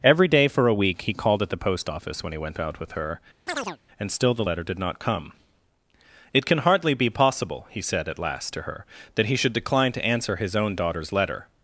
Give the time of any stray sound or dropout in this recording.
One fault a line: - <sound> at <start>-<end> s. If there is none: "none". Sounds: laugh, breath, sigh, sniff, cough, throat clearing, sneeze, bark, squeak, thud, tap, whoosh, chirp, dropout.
- chirp at 3.5-3.8 s